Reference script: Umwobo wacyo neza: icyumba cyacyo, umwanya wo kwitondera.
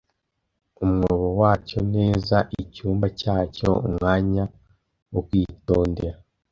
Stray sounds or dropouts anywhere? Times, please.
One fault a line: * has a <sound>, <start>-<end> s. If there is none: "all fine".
all fine